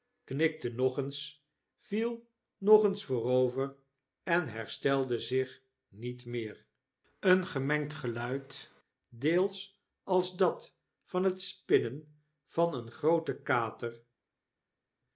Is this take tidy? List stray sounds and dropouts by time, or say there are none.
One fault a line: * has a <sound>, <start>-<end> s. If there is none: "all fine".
all fine